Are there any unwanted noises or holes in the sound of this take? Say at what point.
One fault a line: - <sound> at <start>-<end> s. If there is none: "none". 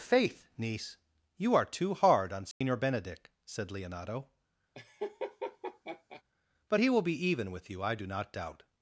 - dropout at 2.5-2.6 s
- laugh at 4.7-6.2 s